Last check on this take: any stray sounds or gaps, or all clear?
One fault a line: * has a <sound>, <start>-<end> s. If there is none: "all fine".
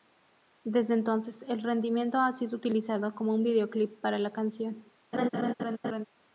* has a laugh, 5.1-6.0 s